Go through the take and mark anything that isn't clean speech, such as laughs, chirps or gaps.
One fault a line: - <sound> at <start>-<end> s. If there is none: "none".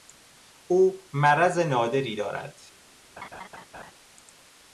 - laugh at 3.2-3.9 s